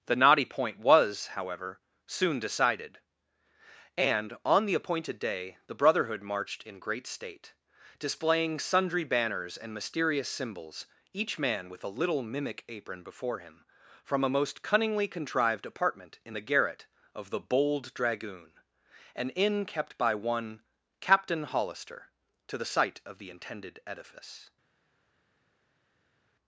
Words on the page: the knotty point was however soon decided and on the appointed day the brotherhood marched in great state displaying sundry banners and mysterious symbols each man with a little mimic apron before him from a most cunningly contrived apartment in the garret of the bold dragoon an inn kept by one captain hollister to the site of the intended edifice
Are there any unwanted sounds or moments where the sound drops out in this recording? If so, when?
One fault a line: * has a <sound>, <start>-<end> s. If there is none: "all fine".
all fine